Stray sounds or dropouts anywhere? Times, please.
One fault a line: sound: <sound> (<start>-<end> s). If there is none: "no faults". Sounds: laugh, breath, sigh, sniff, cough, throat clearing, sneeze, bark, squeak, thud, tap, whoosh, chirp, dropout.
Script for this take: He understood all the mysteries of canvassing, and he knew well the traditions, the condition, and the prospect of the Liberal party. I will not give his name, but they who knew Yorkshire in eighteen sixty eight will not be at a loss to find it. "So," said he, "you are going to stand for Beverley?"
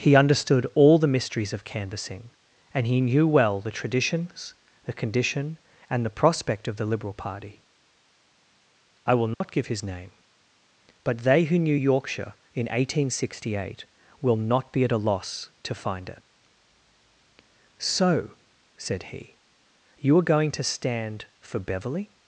sound: dropout (9.3-9.4 s)